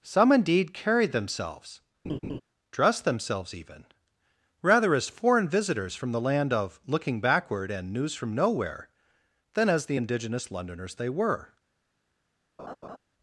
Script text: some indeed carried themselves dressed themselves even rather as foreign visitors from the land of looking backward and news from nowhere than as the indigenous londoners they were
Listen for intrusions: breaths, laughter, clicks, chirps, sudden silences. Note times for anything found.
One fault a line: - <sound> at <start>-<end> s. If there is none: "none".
- laugh at 2.0-2.4 s
- laugh at 12.6-13.0 s